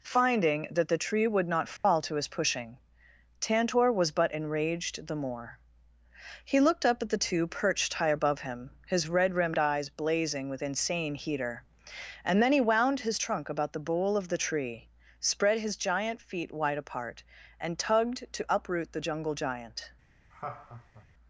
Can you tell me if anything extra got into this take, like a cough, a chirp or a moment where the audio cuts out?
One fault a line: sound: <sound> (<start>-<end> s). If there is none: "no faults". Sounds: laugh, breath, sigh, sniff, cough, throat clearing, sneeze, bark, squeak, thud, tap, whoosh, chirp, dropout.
sound: dropout (1.8-1.8 s)
sound: laugh (20.3-21.1 s)